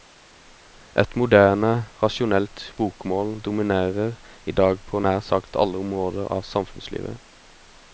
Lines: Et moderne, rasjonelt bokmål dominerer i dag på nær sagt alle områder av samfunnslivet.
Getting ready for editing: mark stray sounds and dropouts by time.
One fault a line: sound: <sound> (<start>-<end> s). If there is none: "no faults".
no faults